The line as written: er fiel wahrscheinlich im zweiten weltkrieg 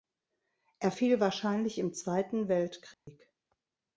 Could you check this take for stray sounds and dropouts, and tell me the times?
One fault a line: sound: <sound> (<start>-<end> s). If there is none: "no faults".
sound: dropout (2.9-3.1 s)